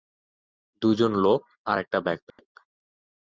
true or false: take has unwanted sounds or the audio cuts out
true